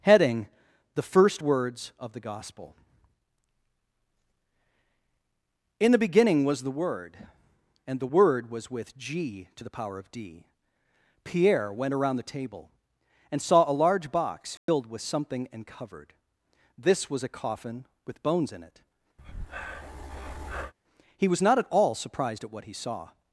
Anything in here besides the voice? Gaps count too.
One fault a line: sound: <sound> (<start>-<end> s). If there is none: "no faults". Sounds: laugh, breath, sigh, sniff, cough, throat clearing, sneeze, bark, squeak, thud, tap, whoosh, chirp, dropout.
sound: dropout (14.6-14.7 s)
sound: breath (19.2-20.7 s)